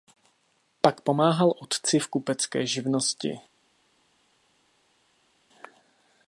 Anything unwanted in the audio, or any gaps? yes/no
no